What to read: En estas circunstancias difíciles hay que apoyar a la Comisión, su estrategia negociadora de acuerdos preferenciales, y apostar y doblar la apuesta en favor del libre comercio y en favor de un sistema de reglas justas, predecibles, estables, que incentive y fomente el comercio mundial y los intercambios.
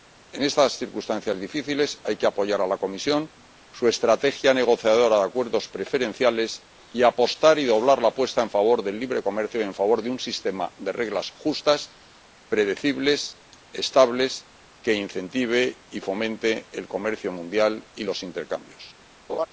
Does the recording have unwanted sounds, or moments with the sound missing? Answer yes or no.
yes